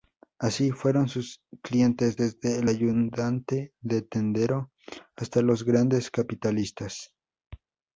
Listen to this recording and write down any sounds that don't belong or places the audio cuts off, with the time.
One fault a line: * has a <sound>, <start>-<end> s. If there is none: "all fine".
all fine